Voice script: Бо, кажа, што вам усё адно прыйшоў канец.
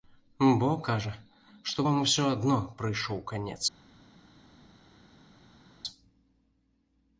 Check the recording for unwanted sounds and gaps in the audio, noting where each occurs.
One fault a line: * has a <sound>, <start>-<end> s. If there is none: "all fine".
all fine